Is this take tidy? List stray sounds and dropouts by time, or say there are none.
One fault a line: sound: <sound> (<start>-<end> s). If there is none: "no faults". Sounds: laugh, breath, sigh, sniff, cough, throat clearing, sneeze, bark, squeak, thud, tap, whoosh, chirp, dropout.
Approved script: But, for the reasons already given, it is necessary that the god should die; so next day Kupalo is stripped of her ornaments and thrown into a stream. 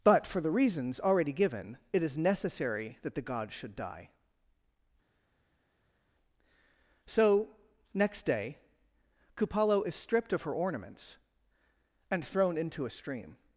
no faults